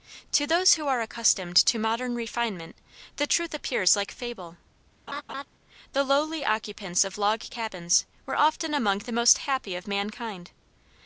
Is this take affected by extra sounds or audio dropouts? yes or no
yes